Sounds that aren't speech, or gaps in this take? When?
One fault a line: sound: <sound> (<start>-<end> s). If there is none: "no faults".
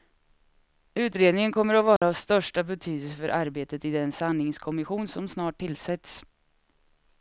sound: dropout (2.0-2.0 s)